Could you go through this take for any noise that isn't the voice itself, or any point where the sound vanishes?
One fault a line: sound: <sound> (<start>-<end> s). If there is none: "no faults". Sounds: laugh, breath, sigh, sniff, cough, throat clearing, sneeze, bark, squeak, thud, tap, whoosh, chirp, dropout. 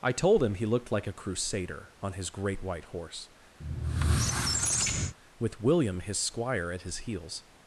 sound: squeak (3.6-5.2 s)